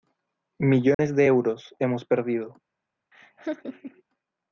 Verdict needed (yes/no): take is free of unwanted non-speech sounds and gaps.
no